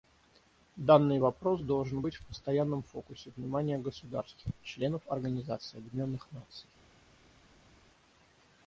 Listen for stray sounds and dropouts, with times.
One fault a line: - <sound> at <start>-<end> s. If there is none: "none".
none